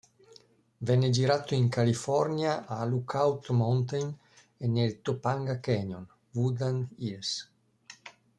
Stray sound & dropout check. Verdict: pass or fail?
pass